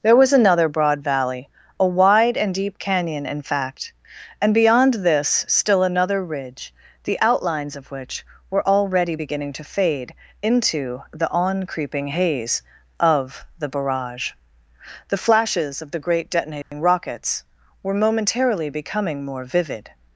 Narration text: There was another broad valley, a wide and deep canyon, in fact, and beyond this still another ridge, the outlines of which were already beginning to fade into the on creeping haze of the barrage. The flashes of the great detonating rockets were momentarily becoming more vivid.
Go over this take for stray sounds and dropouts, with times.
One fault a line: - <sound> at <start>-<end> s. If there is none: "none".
- dropout at 16.6-16.7 s